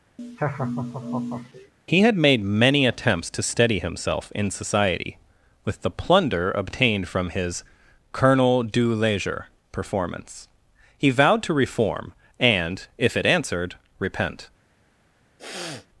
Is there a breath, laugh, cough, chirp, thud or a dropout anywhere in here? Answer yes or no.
yes